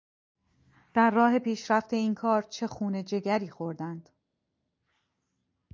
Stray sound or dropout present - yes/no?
no